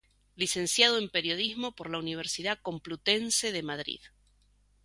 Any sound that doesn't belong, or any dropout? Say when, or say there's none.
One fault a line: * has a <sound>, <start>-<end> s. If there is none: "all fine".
all fine